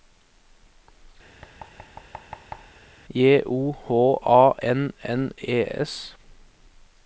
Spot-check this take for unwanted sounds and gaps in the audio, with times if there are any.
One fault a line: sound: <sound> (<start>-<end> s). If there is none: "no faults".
sound: thud (1.4-2.8 s)